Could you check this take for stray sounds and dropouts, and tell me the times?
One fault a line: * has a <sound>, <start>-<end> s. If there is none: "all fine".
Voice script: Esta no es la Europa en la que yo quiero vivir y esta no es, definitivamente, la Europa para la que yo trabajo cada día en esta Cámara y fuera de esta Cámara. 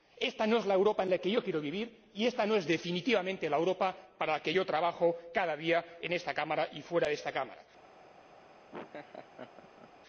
* has a laugh, 8.7-9.9 s